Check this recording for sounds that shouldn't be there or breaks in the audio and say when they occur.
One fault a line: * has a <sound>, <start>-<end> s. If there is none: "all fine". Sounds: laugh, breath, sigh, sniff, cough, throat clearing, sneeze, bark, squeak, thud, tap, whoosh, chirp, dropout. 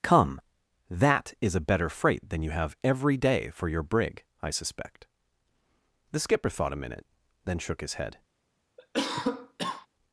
* has a cough, 8.8-9.9 s